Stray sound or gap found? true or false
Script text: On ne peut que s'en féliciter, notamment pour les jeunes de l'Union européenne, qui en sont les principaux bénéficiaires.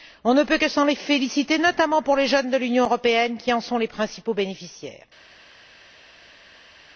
false